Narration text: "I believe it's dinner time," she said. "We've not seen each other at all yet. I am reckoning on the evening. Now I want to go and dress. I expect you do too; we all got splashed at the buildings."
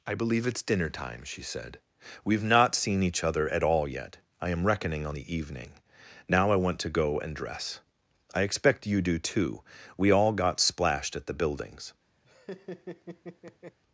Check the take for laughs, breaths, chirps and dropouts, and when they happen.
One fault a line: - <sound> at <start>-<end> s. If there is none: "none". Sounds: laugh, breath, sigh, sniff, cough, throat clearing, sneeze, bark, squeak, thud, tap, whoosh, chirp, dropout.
- laugh at 12.2-13.8 s